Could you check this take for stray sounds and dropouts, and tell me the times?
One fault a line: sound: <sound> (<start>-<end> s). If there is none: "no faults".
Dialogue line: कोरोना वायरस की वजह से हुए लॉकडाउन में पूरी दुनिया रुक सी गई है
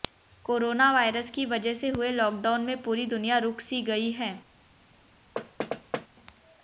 sound: thud (5.4-6.1 s)